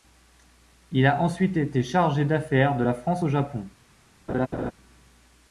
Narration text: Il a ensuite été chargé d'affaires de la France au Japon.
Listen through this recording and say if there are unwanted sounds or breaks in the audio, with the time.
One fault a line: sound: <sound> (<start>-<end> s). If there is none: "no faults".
sound: laugh (4.3-4.7 s)